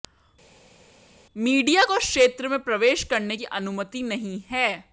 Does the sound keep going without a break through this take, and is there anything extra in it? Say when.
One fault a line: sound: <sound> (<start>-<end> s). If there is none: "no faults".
no faults